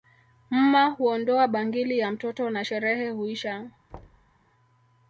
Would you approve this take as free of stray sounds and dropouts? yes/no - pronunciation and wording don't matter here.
no